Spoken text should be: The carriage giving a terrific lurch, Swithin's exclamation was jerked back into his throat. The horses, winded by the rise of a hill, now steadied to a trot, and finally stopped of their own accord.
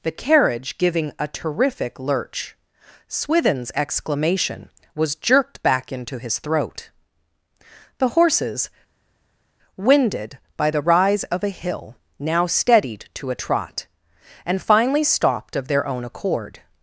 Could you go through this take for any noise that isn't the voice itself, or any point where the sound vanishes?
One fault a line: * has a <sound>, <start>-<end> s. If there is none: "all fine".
all fine